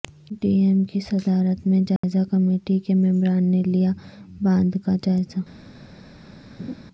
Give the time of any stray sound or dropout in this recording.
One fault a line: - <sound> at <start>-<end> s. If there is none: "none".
- dropout at 2.0-2.0 s
- laugh at 6.6-6.7 s